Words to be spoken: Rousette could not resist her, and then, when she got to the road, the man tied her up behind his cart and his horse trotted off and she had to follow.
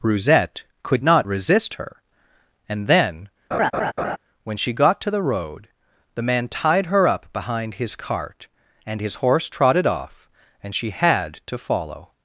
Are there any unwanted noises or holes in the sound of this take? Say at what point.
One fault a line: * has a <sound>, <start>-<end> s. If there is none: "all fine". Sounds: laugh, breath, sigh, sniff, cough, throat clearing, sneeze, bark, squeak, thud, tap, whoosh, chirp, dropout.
* has a laugh, 3.5-4.2 s